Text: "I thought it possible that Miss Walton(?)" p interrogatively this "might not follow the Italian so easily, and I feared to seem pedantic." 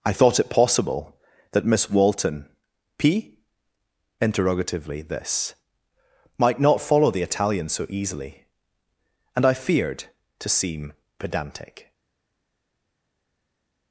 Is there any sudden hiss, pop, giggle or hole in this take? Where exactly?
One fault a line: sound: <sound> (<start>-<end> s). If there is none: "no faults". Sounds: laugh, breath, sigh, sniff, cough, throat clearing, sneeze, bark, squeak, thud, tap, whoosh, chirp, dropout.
no faults